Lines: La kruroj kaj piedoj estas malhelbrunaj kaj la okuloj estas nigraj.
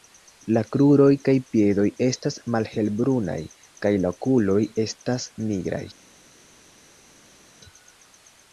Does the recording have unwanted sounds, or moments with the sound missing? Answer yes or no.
no